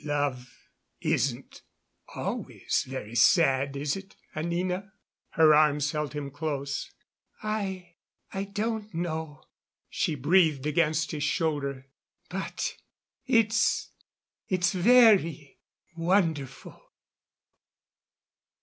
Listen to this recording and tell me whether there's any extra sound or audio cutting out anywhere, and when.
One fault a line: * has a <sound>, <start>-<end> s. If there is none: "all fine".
all fine